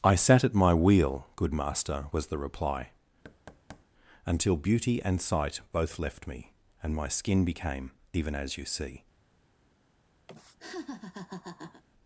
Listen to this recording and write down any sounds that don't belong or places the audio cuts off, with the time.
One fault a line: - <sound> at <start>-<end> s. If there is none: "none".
- thud at 3.2-3.9 s
- laugh at 10.3-11.8 s